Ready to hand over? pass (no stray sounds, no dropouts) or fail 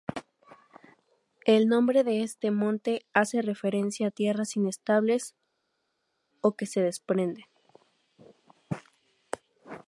pass